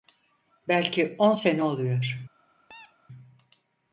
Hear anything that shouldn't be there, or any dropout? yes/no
yes